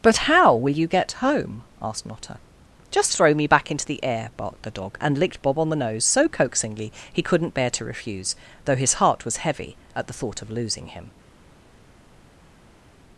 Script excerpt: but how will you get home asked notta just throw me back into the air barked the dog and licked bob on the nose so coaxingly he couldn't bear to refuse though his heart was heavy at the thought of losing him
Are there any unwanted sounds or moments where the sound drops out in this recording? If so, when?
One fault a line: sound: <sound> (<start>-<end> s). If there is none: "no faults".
no faults